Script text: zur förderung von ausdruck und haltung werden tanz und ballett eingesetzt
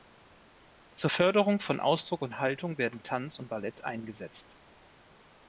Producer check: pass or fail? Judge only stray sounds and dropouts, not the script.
pass